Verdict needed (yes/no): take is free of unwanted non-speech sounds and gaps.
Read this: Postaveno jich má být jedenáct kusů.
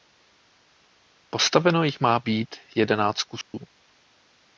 no